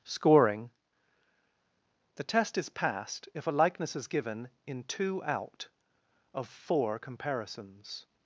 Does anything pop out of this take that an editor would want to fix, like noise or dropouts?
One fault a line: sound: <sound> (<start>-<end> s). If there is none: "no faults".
no faults